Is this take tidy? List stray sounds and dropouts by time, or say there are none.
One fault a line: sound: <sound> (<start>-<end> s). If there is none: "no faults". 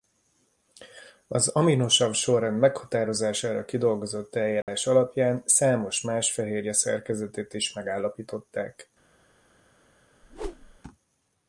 sound: dropout (4.6-4.7 s)
sound: whoosh (10.2-10.8 s)